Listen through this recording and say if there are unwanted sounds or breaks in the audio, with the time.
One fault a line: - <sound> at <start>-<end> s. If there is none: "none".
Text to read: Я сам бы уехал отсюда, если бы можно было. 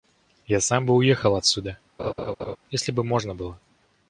- laugh at 2.0-2.6 s